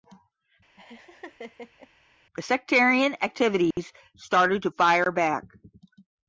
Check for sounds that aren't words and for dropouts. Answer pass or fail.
fail